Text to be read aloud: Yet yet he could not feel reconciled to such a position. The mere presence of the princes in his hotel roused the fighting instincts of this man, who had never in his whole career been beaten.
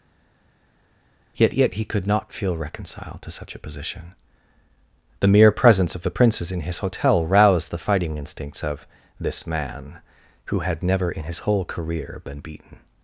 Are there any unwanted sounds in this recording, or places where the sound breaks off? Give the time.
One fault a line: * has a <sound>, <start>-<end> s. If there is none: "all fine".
all fine